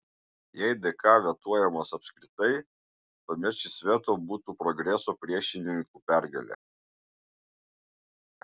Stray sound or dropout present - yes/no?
no